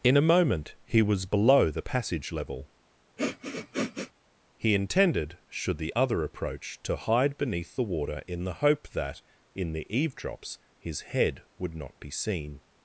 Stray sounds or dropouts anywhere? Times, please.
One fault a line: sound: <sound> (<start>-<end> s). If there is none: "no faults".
sound: sniff (3.2-4.1 s)